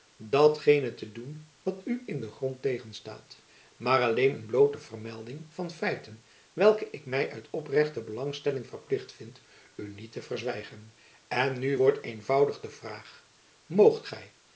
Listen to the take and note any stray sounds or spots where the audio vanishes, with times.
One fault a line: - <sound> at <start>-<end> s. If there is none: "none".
none